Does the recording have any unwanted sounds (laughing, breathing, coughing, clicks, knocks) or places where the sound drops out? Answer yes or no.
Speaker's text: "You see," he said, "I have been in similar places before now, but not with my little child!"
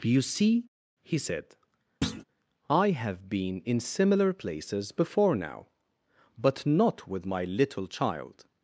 yes